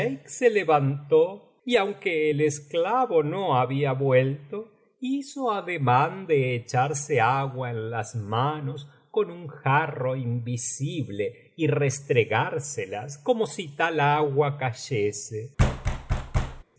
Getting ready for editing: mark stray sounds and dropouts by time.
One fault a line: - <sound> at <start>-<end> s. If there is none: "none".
- thud at 15.6-16.6 s